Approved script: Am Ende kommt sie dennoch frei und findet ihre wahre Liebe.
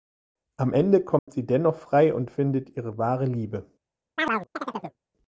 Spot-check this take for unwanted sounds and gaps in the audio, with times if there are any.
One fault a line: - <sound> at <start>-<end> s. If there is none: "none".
- dropout at 1.2-1.3 s
- chirp at 4.2-5.0 s